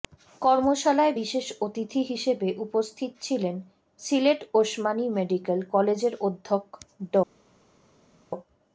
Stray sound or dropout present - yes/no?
no